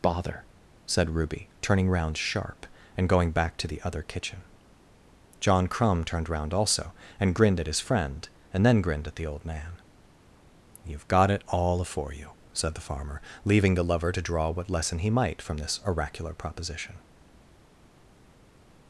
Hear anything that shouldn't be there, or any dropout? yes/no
no